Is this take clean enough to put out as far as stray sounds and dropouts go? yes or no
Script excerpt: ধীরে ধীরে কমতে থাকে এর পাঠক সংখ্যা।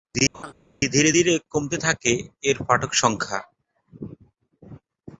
no